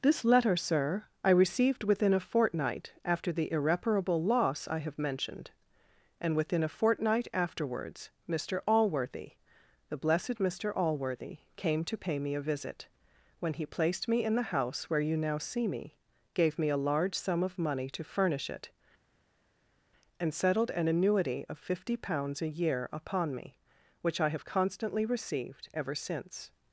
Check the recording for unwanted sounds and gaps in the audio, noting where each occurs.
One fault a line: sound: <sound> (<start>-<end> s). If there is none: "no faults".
no faults